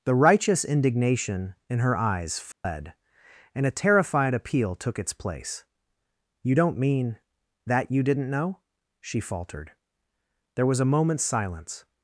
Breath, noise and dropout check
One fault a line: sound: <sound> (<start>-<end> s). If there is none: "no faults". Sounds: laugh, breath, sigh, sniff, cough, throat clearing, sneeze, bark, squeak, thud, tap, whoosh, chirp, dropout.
sound: dropout (2.5-2.6 s)